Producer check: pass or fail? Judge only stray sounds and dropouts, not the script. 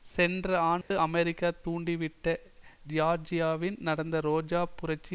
fail